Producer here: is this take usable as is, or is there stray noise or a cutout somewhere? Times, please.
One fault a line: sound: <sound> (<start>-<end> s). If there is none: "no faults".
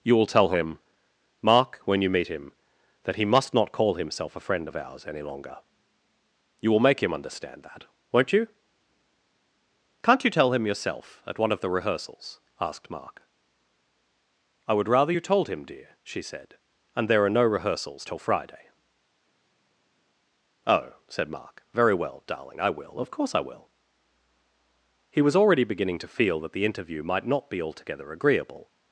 no faults